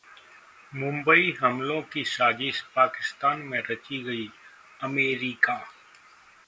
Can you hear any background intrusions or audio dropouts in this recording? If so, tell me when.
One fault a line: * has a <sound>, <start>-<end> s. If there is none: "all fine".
all fine